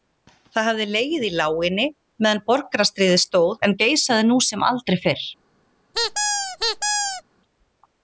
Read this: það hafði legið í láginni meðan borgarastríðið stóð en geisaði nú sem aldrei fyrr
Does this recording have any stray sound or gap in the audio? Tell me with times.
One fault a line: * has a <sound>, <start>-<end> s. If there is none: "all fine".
* has a squeak, 5.9-7.2 s